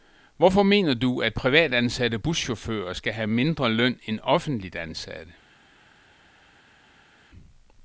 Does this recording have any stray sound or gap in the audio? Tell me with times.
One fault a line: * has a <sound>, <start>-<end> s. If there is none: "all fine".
all fine